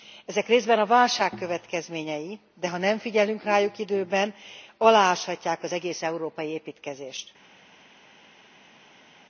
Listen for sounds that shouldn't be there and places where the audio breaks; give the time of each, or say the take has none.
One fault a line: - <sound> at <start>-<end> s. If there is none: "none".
none